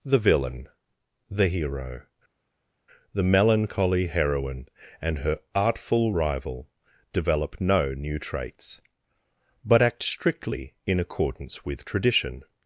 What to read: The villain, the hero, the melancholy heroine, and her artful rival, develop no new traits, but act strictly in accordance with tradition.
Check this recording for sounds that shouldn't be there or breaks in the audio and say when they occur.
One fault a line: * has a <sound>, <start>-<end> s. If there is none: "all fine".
all fine